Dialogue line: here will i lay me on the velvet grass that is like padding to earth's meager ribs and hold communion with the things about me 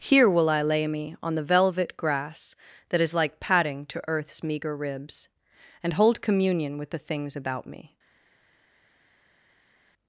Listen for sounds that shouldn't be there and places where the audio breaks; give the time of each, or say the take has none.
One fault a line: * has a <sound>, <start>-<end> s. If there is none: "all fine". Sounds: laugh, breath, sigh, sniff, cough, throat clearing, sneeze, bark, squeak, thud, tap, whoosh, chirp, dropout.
all fine